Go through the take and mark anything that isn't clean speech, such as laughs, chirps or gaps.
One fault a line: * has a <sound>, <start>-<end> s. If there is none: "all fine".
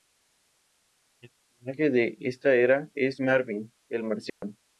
* has a dropout, 4.3-4.4 s